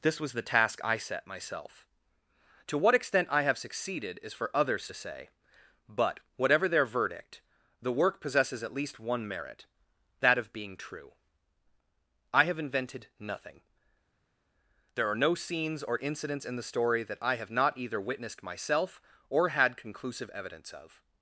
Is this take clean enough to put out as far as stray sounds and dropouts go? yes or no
yes